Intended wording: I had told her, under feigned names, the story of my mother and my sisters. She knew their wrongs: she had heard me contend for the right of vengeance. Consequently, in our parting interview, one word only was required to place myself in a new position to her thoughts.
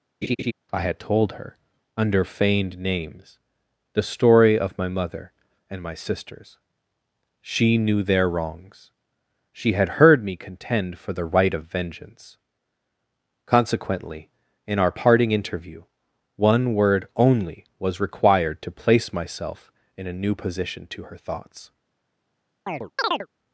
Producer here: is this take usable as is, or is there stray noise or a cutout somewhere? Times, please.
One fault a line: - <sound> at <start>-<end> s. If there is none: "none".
- laugh at 0.2-0.5 s
- chirp at 22.7-23.3 s